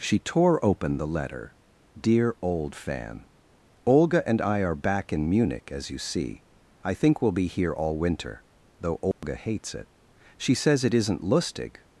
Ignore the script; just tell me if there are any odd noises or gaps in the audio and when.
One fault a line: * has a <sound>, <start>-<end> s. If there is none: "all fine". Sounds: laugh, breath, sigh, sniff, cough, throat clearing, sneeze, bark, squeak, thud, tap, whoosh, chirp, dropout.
* has a dropout, 9.1-9.2 s